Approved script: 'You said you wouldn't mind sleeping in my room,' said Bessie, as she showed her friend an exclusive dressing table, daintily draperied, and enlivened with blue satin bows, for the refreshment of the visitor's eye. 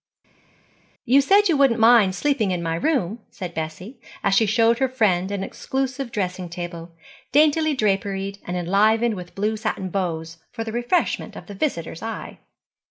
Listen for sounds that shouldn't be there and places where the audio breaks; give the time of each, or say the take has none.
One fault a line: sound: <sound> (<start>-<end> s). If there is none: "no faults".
no faults